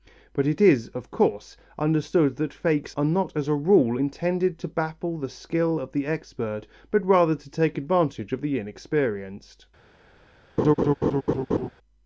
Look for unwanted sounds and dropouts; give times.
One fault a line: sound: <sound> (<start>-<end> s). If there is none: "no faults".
sound: laugh (10.6-11.7 s)